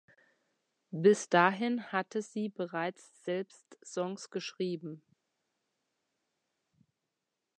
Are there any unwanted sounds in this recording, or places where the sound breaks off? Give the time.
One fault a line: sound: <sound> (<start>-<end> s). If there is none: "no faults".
no faults